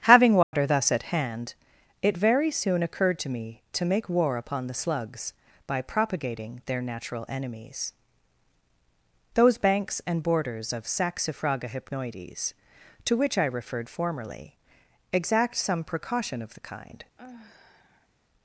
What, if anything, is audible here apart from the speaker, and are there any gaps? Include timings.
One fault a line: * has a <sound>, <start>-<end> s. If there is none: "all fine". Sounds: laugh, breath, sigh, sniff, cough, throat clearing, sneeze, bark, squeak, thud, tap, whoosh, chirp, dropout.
* has a dropout, 0.4-0.5 s
* has a sigh, 17.2-18.1 s